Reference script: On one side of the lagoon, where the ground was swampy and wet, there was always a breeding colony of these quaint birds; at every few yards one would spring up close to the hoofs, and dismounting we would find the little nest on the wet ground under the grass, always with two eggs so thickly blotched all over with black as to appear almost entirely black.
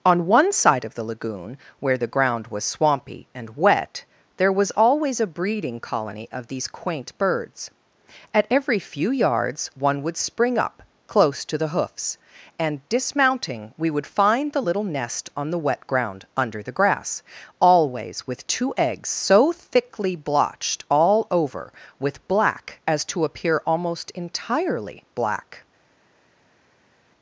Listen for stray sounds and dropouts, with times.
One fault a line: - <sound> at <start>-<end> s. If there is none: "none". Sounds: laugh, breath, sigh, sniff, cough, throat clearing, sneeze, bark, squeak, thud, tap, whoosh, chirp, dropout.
none